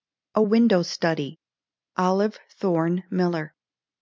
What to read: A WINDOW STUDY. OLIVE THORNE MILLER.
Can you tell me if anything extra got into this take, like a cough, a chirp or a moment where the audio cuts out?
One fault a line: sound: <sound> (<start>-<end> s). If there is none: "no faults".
no faults